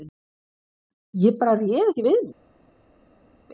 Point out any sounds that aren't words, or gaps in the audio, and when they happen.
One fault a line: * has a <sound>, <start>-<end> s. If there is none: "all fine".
all fine